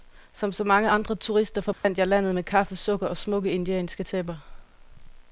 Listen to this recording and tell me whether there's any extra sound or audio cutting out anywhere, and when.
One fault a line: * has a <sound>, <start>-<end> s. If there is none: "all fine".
* has a dropout, 1.7-1.8 s